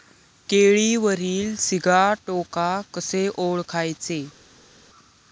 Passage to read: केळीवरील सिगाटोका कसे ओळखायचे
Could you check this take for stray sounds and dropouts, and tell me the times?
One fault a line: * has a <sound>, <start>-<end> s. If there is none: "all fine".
all fine